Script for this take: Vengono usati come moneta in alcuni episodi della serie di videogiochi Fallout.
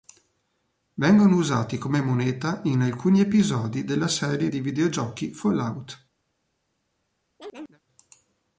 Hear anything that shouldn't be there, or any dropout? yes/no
yes